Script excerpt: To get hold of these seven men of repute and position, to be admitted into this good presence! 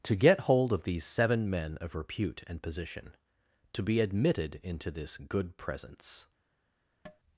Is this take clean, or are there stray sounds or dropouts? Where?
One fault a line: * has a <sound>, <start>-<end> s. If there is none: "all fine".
* has a tap, 7.1-7.2 s